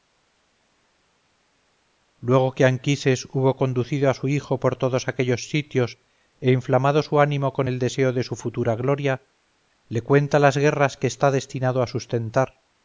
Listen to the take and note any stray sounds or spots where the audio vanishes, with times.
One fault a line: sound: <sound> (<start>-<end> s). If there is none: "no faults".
no faults